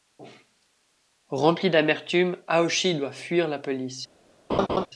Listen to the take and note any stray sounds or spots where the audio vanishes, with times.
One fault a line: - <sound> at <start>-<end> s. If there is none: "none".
- laugh at 4.5-4.9 s